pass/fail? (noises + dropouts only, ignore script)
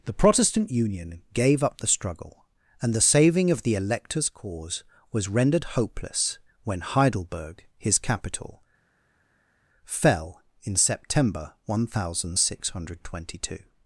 pass